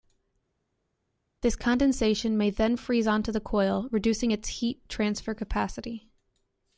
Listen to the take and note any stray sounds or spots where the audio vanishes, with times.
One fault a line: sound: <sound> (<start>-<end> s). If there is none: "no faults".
no faults